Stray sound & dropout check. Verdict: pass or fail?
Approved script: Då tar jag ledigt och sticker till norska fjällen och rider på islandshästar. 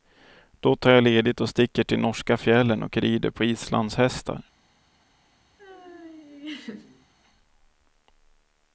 fail